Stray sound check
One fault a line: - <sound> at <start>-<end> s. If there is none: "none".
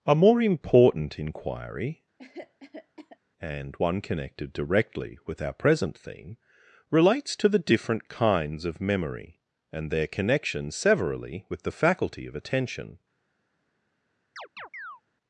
- cough at 2.2-3.2 s
- chirp at 14.4-15.0 s